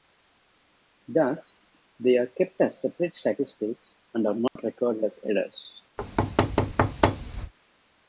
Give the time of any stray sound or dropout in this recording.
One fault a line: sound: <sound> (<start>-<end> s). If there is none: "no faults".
sound: dropout (4.5-4.6 s)
sound: thud (6.0-7.5 s)